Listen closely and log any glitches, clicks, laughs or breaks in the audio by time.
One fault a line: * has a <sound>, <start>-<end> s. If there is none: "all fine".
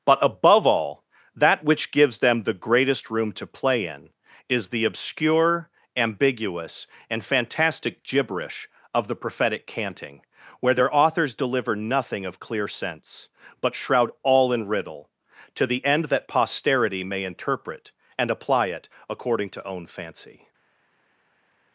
all fine